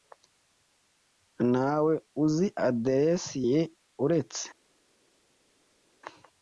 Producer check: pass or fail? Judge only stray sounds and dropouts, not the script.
pass